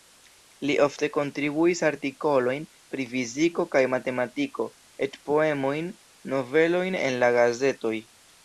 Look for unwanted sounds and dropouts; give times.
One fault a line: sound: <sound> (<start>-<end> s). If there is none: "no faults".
no faults